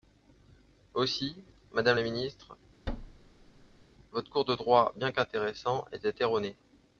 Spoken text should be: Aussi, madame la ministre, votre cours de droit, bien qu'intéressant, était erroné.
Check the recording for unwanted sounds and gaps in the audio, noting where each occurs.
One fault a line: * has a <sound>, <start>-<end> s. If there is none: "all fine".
* has a thud, 2.9-3.8 s